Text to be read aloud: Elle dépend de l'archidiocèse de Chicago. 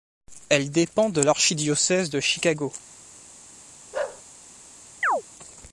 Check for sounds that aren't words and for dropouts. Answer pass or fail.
fail